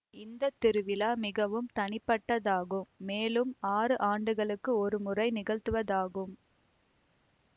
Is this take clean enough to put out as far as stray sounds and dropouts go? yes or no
yes